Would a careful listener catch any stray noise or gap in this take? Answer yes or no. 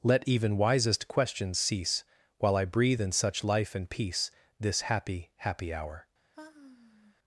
yes